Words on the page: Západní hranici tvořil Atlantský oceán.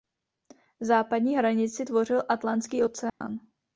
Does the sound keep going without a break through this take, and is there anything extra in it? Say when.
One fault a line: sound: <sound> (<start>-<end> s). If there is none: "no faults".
sound: dropout (3.1-3.2 s)